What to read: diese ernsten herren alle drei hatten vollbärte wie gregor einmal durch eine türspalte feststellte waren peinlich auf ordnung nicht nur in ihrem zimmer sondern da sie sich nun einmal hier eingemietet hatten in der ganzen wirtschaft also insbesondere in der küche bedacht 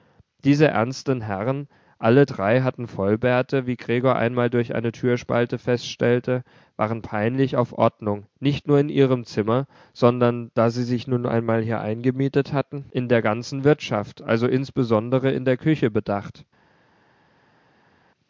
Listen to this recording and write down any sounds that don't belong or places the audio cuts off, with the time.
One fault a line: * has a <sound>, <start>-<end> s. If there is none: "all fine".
all fine